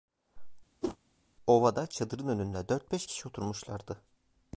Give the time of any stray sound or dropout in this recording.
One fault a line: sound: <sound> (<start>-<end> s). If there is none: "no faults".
sound: whoosh (0.8-1.0 s)